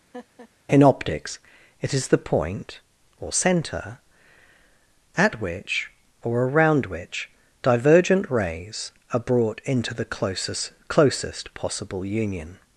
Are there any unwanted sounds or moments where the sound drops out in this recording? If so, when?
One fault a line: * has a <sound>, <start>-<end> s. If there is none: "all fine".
* has a laugh, 0.1-0.5 s